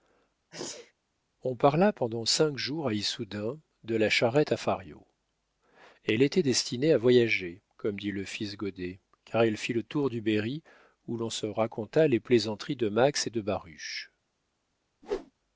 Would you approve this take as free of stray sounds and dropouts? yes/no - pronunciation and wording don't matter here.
no